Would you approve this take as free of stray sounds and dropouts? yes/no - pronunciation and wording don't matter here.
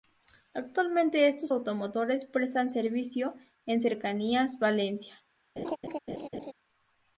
no